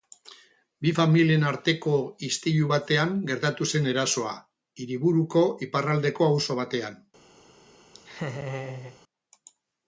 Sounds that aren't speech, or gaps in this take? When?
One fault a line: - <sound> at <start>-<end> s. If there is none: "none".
- laugh at 7.9-9.0 s